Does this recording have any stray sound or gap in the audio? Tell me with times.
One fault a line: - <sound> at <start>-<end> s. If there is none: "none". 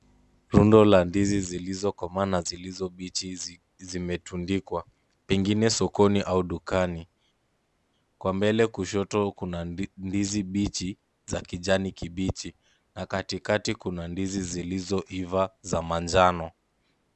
none